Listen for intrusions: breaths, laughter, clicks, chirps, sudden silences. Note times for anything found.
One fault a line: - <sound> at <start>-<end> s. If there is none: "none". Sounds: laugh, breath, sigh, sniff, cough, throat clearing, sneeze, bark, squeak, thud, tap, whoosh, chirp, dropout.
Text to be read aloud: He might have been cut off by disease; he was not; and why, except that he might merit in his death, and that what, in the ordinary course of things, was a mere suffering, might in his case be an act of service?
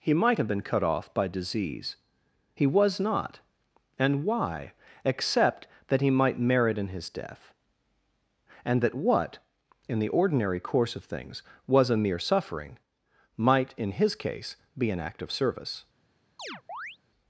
- chirp at 16.4-17.0 s